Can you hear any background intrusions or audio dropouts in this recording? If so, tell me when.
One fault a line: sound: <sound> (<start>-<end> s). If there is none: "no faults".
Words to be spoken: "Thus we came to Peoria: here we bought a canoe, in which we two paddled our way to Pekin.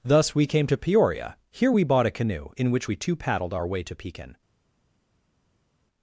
no faults